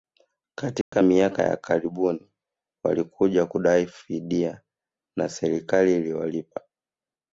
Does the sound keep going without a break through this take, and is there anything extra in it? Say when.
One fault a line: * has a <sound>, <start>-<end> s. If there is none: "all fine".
* has a dropout, 0.8-0.9 s